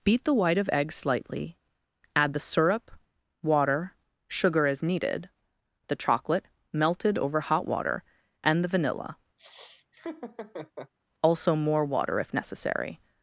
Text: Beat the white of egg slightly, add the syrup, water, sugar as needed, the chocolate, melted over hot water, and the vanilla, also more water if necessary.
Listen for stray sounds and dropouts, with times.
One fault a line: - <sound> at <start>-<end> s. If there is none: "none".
- laugh at 9.4-10.9 s